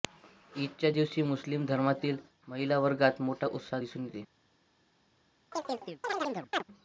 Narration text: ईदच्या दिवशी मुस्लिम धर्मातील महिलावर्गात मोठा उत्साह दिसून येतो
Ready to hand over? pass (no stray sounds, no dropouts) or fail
fail